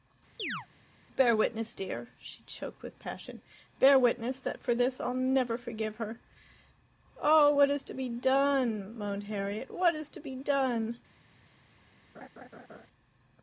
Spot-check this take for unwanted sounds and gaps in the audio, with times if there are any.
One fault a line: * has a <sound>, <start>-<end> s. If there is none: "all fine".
* has a chirp, 0.4-0.7 s
* has a laugh, 12.1-12.9 s